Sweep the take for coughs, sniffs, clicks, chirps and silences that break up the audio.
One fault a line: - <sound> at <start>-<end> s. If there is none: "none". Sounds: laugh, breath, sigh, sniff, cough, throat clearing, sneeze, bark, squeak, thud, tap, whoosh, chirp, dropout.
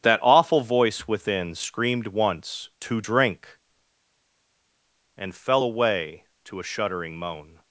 none